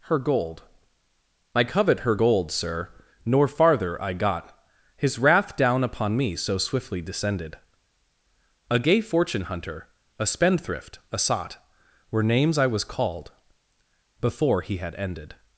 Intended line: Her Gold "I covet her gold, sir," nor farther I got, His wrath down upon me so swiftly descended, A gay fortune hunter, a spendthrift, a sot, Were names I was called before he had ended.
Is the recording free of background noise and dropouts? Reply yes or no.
yes